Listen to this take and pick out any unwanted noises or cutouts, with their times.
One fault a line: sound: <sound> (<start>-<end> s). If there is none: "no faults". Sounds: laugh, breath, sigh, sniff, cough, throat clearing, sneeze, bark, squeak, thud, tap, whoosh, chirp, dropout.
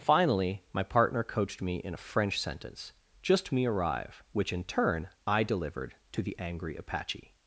no faults